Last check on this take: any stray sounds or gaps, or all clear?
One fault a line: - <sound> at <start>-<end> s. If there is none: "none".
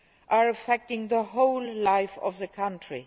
none